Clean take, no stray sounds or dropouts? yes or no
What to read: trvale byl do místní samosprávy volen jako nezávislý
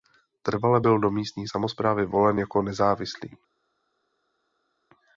yes